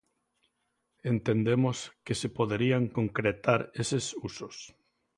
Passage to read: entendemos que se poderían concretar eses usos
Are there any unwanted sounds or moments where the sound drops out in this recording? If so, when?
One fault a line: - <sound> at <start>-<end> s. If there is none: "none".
none